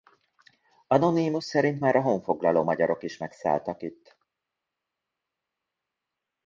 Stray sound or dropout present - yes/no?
no